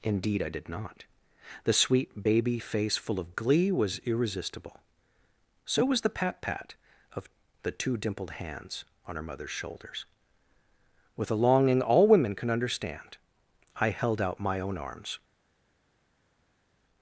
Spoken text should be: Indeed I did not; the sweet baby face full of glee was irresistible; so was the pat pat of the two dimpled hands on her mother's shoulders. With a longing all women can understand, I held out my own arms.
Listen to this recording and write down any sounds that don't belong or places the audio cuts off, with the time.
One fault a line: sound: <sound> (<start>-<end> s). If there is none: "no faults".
no faults